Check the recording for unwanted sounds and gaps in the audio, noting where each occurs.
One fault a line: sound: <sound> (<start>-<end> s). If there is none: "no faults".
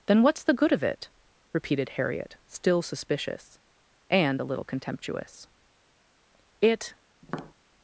sound: tap (7.2-7.5 s)